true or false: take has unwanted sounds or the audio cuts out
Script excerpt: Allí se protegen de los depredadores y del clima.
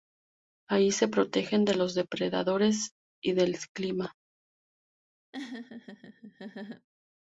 true